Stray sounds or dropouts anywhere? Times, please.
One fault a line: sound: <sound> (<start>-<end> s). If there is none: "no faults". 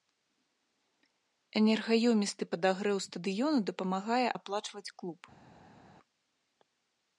no faults